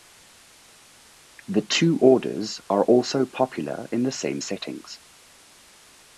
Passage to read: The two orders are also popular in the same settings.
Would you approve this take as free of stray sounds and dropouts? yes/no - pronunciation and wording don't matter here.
yes